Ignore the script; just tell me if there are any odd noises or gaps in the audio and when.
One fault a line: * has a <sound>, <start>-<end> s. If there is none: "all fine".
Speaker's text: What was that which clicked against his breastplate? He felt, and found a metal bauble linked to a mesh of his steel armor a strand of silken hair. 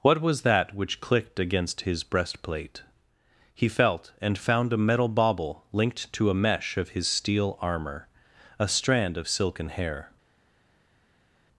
all fine